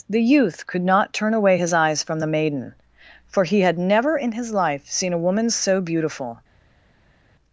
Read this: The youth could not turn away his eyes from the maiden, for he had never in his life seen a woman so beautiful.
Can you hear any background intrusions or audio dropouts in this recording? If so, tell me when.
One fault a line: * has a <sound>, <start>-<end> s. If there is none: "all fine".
all fine